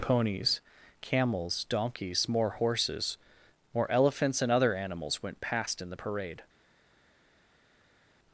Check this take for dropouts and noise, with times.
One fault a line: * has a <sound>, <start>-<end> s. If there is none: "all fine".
all fine